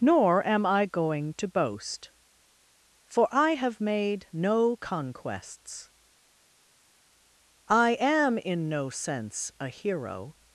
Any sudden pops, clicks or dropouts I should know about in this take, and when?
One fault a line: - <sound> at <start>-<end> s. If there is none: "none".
none